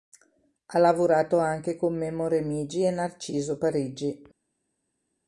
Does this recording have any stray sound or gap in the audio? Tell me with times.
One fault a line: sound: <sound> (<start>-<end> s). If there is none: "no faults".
no faults